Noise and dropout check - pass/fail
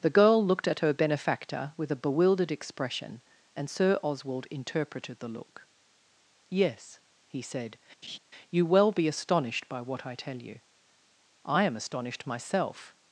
fail